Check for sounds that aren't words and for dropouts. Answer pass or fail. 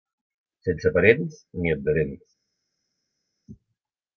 pass